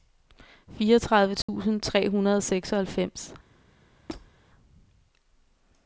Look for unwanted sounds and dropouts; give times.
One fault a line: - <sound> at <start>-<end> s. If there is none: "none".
- dropout at 1.4-1.5 s
- squeak at 4.1-4.3 s